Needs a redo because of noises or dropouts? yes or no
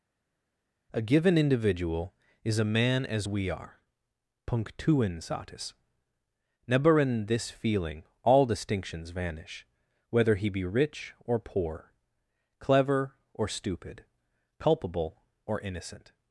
no